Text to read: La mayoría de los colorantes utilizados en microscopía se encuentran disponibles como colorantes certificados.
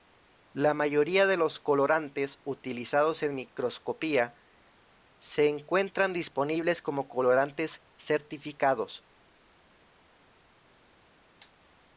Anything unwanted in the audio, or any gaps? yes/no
no